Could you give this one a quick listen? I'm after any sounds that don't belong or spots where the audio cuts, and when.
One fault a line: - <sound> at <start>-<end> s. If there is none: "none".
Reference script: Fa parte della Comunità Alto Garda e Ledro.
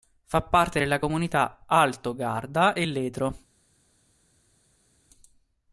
none